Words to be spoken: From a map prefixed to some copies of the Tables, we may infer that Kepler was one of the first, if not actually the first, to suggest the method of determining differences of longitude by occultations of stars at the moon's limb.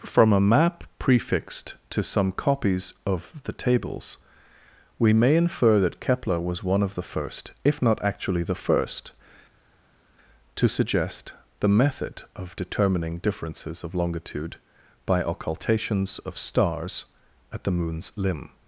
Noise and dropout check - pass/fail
pass